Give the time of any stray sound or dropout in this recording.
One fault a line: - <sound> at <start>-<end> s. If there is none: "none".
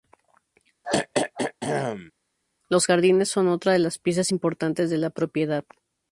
- throat clearing at 0.8-2.1 s